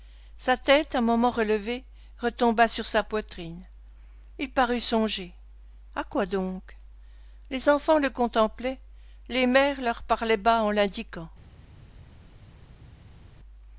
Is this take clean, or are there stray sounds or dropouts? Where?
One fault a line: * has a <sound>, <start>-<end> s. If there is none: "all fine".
all fine